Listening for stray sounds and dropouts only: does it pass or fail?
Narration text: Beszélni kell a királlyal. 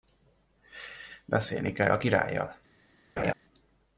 fail